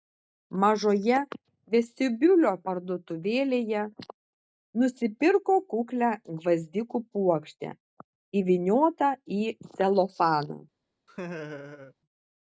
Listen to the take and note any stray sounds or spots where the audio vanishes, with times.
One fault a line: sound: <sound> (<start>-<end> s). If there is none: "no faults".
sound: laugh (11.1-11.9 s)